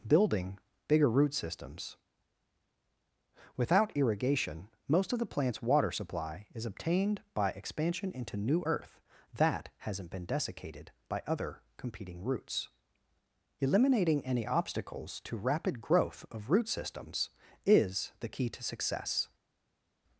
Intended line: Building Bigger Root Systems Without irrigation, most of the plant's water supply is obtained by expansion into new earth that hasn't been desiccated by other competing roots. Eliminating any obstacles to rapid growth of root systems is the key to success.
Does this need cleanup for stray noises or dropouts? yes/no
no